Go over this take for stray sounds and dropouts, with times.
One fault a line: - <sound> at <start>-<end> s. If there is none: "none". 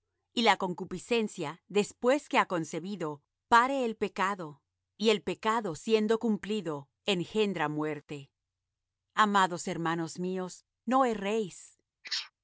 - sneeze at 12.0-12.3 s